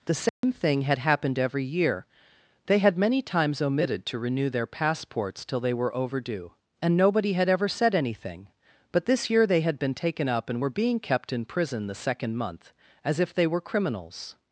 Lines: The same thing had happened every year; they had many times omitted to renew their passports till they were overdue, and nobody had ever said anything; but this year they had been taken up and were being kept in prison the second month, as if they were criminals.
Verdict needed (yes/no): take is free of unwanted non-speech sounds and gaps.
no